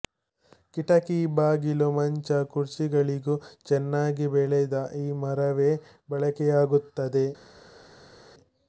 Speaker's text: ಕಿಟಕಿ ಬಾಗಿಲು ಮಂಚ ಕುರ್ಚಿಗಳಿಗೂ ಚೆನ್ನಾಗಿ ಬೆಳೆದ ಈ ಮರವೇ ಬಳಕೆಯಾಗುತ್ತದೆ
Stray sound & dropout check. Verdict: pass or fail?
pass